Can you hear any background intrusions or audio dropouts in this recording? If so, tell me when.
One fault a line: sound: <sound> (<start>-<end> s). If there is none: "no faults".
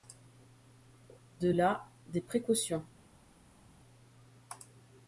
no faults